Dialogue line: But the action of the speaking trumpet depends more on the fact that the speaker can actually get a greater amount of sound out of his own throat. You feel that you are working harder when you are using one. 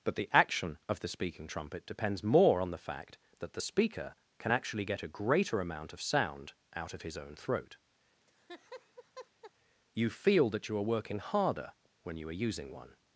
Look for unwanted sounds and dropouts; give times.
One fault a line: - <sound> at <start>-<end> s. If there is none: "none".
- laugh at 8.2-9.5 s